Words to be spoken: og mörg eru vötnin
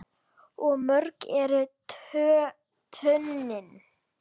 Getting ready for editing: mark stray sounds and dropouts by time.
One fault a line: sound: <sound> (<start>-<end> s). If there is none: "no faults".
no faults